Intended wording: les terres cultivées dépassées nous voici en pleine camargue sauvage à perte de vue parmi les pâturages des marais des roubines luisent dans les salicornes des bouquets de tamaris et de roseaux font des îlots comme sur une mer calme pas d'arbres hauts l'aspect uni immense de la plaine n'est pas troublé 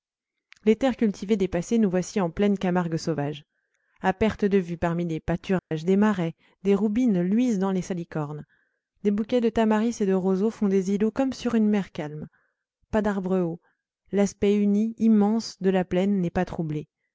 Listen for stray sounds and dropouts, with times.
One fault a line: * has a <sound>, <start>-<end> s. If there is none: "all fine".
* has a dropout, 5.6-5.7 s